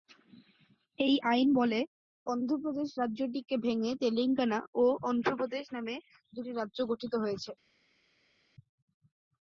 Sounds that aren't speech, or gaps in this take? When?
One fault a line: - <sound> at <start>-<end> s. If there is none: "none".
none